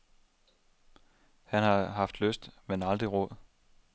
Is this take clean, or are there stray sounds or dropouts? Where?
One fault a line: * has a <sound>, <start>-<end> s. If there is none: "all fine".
all fine